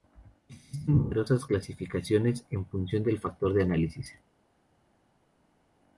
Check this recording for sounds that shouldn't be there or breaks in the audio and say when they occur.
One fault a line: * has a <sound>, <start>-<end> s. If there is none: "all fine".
all fine